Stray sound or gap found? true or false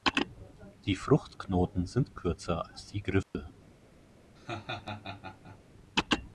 true